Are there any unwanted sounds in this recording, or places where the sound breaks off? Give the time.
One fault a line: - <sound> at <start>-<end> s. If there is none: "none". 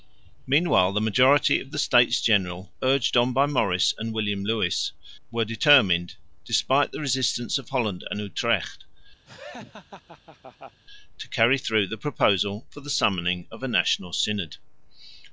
- laugh at 9.2-10.8 s